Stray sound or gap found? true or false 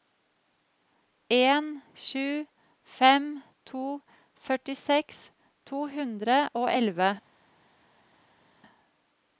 false